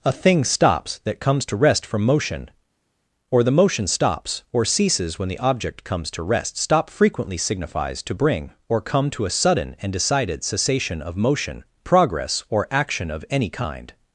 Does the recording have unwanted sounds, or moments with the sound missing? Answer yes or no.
no